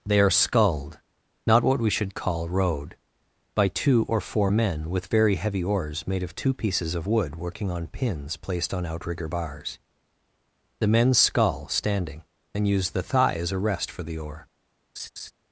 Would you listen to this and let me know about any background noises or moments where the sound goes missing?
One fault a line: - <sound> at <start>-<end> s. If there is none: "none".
- laugh at 15.0-15.3 s